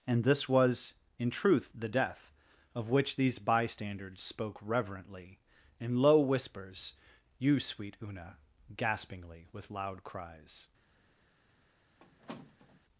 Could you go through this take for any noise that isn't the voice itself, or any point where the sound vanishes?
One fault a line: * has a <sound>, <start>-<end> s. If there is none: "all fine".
* has a squeak, 12.0-12.8 s